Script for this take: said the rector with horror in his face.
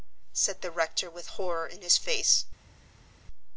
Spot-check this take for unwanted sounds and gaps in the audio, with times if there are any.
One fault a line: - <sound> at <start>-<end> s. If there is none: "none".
none